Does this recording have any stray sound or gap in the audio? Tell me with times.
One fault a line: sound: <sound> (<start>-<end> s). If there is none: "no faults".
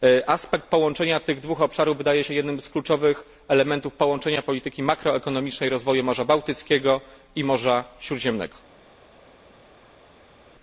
no faults